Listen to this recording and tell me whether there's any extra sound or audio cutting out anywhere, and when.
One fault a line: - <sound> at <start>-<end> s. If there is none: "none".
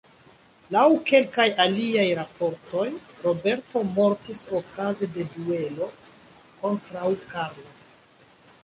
none